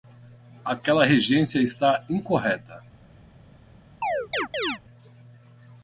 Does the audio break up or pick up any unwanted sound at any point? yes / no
yes